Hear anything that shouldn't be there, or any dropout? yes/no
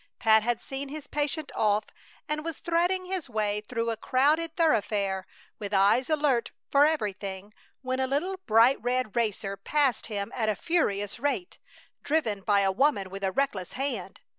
no